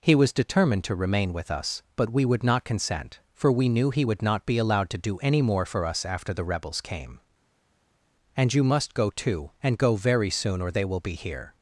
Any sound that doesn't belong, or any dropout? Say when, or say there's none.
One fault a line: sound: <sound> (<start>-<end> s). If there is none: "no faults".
no faults